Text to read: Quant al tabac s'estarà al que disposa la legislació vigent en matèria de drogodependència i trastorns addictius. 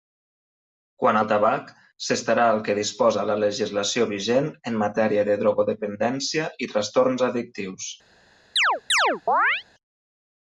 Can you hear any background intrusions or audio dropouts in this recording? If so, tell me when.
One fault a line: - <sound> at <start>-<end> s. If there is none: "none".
- chirp at 8.6-9.6 s